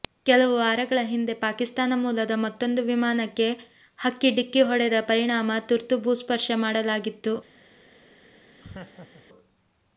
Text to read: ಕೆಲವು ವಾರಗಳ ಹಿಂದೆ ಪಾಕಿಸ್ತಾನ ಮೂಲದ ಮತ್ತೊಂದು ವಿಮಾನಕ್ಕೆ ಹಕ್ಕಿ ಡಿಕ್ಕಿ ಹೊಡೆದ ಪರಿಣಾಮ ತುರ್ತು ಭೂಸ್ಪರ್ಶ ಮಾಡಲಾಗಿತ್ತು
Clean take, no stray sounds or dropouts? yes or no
no